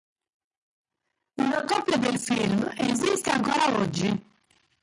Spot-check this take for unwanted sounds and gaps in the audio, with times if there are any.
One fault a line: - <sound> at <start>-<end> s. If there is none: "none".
none